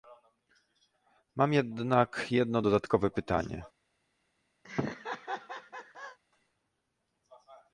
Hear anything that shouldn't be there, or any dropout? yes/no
yes